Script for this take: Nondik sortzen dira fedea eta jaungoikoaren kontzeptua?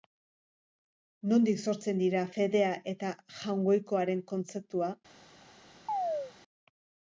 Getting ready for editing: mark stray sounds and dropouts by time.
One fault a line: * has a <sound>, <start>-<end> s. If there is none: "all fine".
* has a chirp, 5.9-6.3 s